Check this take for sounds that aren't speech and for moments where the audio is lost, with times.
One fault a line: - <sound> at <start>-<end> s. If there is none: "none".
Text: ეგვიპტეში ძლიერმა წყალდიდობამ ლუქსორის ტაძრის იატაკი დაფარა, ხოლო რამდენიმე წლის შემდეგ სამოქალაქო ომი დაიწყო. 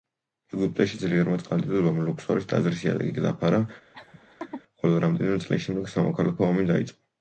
- laugh at 3.9-4.6 s